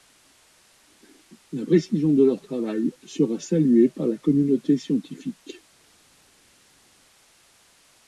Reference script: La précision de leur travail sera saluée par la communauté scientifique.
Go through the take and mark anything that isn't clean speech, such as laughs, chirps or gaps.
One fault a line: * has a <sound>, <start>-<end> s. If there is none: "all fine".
all fine